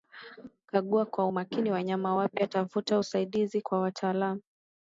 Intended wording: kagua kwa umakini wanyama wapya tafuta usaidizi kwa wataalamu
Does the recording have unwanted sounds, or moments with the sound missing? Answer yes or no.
no